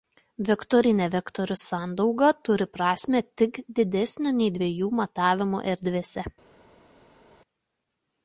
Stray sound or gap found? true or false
false